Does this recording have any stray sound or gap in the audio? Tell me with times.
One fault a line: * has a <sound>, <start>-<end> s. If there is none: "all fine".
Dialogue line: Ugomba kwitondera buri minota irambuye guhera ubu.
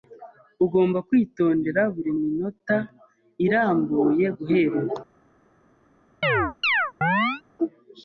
* has a chirp, 6.2-7.4 s